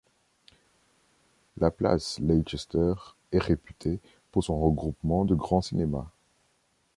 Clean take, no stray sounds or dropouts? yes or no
yes